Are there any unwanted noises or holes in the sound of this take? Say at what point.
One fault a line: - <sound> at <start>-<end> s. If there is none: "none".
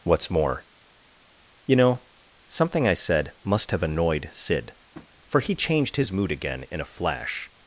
- tap at 4.9-5.1 s